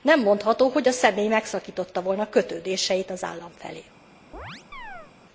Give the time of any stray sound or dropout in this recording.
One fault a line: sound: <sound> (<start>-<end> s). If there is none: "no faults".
sound: chirp (4.3-5.1 s)